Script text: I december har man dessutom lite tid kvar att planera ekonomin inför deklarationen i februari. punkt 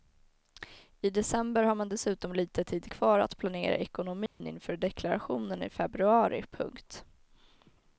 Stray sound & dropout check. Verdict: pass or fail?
fail